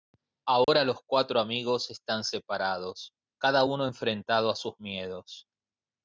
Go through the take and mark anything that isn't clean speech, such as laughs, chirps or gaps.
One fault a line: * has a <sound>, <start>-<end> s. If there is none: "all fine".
* has a dropout, 0.6-0.7 s